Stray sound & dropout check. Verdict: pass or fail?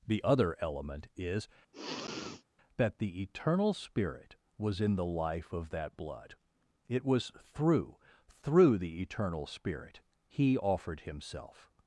fail